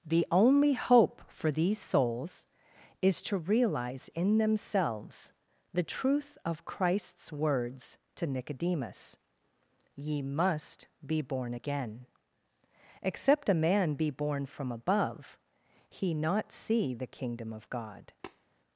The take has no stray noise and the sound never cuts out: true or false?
false